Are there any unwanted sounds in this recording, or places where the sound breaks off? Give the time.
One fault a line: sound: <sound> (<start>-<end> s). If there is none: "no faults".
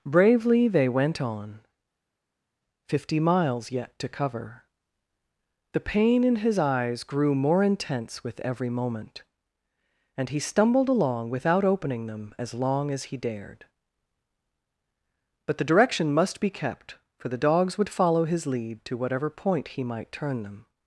no faults